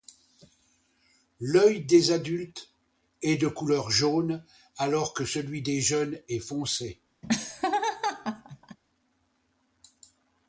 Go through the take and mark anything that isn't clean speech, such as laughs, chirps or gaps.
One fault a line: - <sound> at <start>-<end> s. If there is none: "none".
- laugh at 7.2-8.8 s